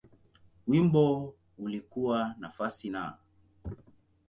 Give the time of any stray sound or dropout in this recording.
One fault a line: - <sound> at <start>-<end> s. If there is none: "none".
none